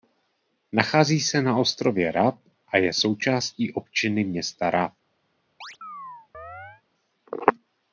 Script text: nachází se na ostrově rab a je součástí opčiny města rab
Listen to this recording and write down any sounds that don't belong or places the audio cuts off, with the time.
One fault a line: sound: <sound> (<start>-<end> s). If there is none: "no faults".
sound: chirp (5.6-6.8 s)